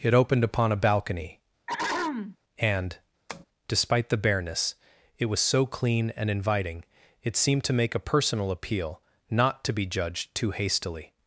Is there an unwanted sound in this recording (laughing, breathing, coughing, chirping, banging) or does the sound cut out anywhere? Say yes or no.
yes